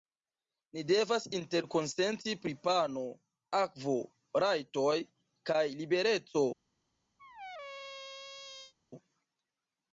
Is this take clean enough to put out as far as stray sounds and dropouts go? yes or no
no